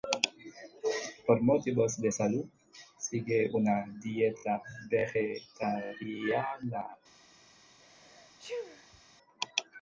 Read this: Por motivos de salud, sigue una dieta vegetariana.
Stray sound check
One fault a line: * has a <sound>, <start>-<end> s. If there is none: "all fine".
* has a sneeze, 7.8-9.0 s